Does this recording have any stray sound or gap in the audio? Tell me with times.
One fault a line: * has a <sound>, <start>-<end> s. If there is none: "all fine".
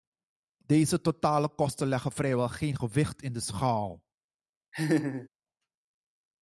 * has a laugh, 4.7-5.3 s